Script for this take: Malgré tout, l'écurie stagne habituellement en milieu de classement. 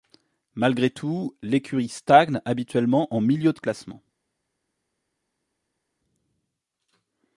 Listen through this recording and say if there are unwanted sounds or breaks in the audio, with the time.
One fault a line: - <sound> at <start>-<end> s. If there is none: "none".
none